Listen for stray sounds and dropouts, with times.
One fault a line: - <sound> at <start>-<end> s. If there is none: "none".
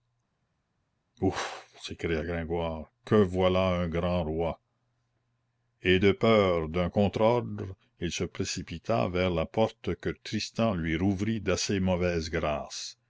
none